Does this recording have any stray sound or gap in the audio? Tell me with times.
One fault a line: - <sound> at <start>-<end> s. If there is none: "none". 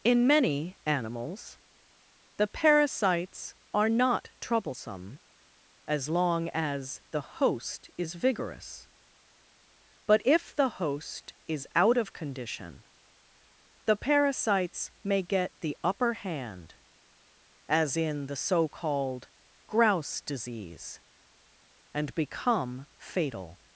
none